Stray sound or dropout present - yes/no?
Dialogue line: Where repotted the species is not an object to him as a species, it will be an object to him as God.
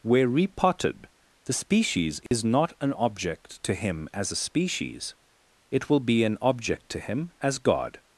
yes